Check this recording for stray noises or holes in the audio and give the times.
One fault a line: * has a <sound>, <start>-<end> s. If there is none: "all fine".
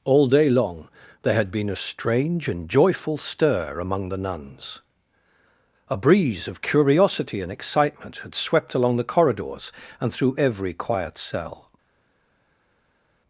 all fine